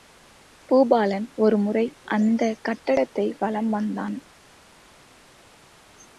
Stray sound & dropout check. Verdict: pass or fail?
pass